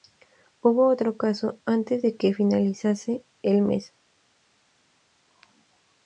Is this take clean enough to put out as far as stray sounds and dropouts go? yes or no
yes